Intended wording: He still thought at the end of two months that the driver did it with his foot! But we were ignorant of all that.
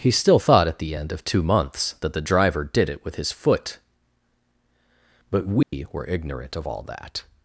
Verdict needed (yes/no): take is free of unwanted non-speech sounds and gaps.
no